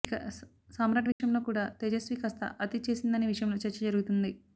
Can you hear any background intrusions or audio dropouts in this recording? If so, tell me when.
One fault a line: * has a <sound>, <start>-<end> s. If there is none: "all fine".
* has a dropout, 1.1-1.2 s